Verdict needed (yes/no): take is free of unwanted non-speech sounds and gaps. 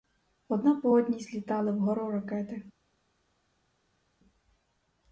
yes